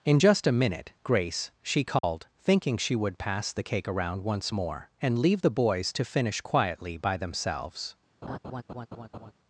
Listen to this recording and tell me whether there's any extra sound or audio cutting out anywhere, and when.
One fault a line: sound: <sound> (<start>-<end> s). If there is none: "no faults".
sound: dropout (2.0-2.0 s)
sound: laugh (8.2-9.3 s)